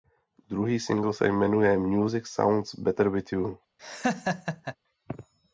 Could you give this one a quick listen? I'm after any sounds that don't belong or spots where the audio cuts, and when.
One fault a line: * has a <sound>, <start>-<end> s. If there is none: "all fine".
* has a laugh, 3.8-4.8 s